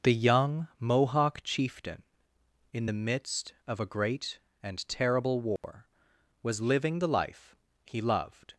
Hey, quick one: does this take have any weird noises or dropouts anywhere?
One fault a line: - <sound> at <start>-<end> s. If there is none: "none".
- dropout at 5.6-5.6 s